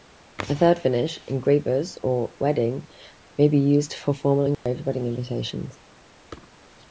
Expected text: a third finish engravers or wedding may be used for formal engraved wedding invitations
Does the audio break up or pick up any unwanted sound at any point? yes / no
yes